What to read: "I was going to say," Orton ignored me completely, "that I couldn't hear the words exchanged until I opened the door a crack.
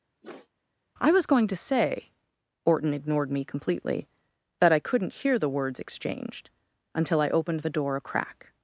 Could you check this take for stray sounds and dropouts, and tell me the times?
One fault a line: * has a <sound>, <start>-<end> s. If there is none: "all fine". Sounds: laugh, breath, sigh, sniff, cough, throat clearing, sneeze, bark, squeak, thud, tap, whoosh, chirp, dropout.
* has a sniff, 0.2-0.5 s